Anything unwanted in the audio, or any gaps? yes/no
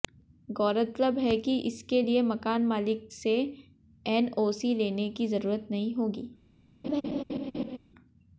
yes